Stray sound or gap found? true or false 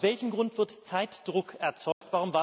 true